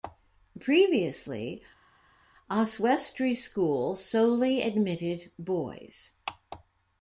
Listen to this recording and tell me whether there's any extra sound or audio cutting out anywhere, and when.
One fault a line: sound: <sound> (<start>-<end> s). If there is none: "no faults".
no faults